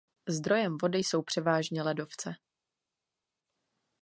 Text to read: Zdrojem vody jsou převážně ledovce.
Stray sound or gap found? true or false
false